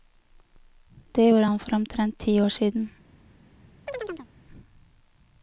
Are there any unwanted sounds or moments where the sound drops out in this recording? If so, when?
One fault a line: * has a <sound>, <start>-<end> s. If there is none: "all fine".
* has a chirp, 3.9-4.3 s